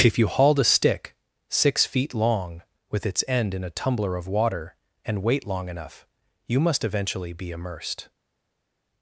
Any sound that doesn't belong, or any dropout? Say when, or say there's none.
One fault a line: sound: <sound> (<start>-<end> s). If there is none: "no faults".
no faults